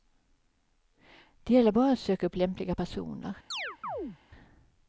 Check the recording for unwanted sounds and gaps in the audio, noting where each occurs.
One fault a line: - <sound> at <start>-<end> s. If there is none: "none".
- chirp at 3.5-4.2 s